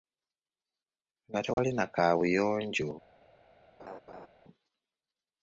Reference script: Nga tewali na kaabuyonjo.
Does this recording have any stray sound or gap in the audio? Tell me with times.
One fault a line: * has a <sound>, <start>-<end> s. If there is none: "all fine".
* has a dropout, 1.5-1.6 s
* has a laugh, 3.8-4.3 s